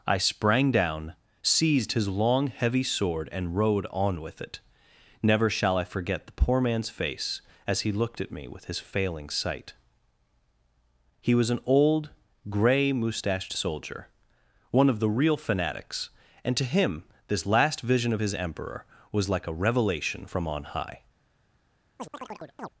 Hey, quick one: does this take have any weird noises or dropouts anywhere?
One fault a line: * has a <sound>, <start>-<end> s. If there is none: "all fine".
* has a chirp, 22.0-22.7 s